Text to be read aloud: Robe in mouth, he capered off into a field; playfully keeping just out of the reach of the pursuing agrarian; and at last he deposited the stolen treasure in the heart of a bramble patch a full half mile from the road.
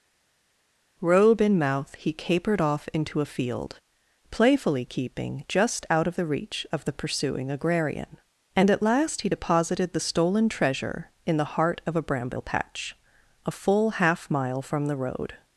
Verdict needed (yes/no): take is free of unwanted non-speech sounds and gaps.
yes